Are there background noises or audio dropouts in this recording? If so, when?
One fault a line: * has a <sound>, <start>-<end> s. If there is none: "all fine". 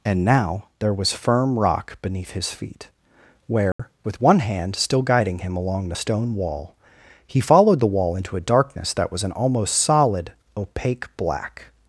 * has a dropout, 3.7-3.8 s